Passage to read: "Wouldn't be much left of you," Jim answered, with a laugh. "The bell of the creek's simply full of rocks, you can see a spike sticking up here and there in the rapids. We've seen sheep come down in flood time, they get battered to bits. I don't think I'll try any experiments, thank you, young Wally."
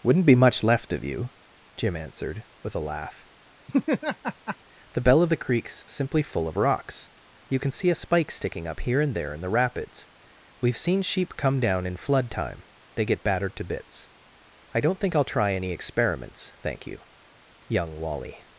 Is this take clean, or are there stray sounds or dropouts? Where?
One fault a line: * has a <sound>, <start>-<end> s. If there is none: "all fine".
* has a laugh, 3.7-4.6 s